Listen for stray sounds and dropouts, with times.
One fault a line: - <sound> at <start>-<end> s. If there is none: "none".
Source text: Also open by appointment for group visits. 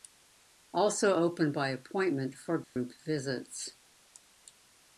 - dropout at 2.6-2.8 s